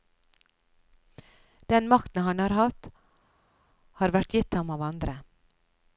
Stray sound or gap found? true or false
false